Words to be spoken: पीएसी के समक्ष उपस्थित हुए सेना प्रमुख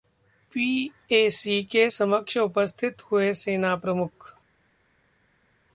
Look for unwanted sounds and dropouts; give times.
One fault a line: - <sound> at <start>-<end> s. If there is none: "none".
none